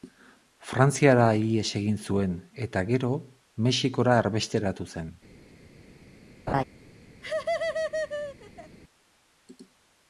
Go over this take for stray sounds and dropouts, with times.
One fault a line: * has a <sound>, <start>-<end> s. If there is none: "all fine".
* has a laugh, 6.5-6.6 s
* has a laugh, 7.2-8.8 s